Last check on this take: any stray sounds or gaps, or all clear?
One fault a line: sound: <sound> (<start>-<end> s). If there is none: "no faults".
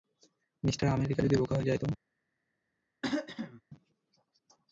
sound: throat clearing (3.0-3.6 s)